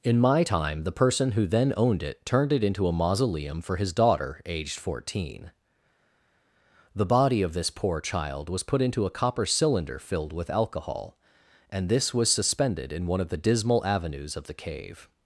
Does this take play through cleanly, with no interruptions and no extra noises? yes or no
yes